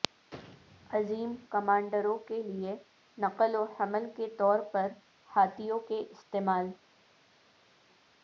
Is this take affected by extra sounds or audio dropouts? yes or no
no